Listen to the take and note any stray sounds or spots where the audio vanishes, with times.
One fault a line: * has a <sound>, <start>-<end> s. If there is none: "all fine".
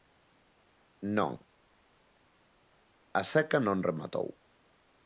all fine